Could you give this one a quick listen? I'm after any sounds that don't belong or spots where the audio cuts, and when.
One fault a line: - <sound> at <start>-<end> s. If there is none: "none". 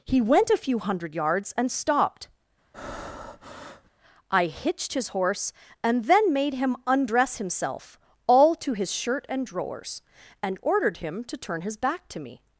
- breath at 2.7-3.9 s